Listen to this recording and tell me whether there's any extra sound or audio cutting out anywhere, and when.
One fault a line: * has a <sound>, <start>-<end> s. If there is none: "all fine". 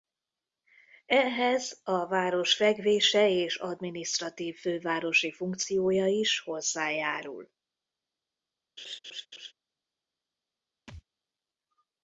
* has a laugh, 8.8-9.5 s
* has a thud, 10.9-11.0 s